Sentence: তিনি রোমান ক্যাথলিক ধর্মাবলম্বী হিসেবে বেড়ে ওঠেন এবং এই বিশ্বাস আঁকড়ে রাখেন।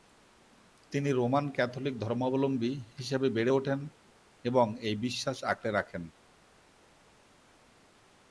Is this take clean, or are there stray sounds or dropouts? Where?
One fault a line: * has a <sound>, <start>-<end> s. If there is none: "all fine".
all fine